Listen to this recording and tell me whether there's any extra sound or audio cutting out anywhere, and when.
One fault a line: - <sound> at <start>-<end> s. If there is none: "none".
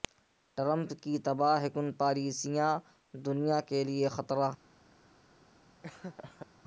- laugh at 5.8-6.5 s